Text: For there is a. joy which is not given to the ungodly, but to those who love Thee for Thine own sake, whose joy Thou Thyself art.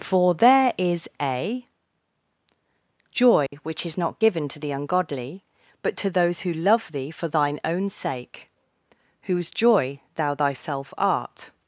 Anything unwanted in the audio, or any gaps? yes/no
yes